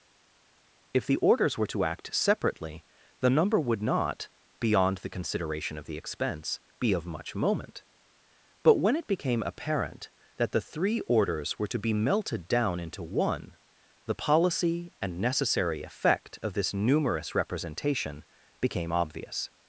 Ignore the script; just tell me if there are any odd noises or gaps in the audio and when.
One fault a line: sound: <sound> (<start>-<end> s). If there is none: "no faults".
no faults